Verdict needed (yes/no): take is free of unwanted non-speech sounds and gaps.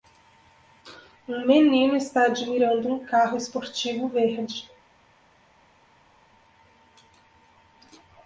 yes